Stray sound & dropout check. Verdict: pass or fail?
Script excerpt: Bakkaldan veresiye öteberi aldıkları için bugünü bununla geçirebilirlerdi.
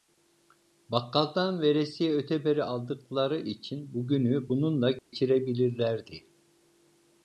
fail